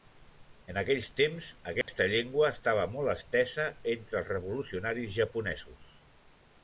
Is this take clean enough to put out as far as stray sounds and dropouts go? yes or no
no